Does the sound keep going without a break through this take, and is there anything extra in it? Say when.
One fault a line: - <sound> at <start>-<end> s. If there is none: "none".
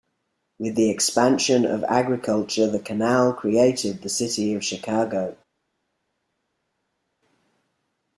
none